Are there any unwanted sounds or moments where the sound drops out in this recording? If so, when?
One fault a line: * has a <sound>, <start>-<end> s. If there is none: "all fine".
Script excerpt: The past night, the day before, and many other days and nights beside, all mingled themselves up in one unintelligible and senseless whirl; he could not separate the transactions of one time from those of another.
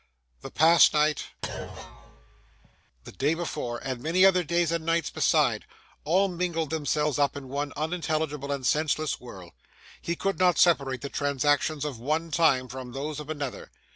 * has a thud, 1.4-2.8 s